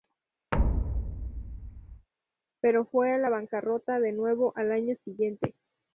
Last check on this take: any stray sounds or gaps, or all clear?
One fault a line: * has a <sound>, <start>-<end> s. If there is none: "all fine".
* has a thud, 0.5-2.1 s